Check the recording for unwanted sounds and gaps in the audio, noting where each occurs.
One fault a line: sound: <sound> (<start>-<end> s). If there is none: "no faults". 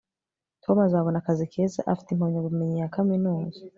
no faults